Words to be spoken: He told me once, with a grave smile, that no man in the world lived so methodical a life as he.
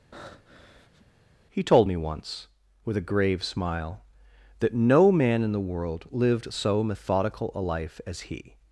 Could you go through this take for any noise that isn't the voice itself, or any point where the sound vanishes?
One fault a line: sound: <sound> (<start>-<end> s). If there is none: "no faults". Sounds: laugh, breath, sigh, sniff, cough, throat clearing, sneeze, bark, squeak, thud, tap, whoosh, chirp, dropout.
sound: breath (0.1-1.1 s)